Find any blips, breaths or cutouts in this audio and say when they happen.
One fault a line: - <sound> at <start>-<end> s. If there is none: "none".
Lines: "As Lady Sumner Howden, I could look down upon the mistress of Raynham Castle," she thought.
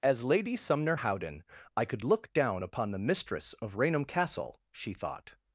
none